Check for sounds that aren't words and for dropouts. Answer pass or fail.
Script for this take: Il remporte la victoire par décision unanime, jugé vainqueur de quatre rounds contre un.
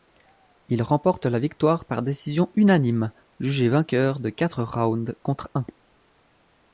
pass